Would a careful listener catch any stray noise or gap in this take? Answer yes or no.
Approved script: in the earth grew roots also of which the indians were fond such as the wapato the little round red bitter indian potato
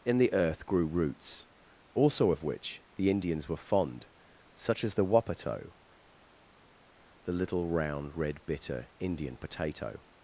no